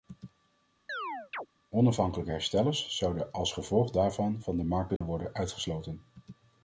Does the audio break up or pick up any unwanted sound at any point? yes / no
yes